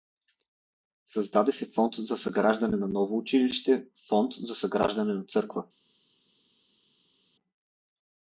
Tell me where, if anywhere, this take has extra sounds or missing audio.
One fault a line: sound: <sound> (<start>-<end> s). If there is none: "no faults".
no faults